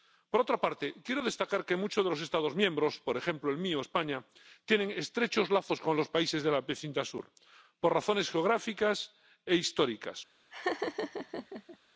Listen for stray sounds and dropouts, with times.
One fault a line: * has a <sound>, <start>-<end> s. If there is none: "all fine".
* has a laugh, 10.5-11.8 s